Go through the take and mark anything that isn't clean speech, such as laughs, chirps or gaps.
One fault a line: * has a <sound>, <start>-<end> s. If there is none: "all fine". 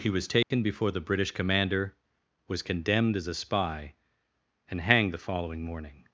* has a dropout, 0.4-0.5 s